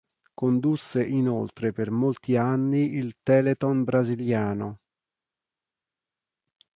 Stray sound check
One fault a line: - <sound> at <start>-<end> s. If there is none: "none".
none